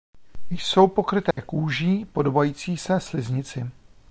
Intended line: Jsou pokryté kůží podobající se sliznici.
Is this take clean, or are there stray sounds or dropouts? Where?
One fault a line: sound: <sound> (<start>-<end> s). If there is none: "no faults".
sound: dropout (1.3-1.4 s)